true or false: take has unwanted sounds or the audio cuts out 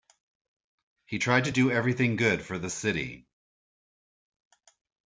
false